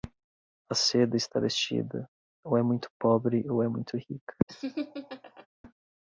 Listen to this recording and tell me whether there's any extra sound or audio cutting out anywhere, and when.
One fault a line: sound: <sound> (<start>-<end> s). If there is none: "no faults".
sound: laugh (4.5-5.5 s)